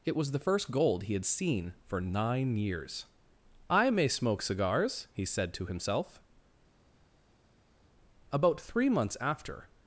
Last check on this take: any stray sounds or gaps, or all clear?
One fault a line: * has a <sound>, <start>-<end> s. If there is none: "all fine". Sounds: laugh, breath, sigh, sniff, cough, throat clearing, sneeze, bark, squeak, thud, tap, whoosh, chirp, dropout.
all fine